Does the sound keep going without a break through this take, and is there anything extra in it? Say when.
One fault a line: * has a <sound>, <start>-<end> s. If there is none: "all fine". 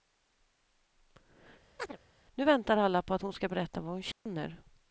* has a chirp, 1.8-2.0 s
* has a dropout, 4.1-4.3 s